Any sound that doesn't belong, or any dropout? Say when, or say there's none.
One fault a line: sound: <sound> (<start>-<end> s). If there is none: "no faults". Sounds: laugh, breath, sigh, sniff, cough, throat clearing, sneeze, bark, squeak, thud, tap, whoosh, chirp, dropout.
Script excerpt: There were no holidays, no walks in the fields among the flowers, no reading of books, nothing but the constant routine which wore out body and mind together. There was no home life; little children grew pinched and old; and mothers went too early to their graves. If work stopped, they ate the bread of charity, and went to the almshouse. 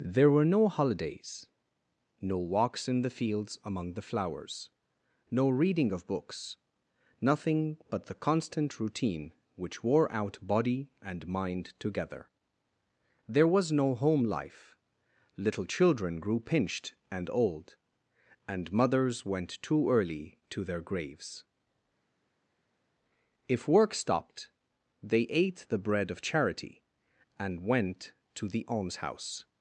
no faults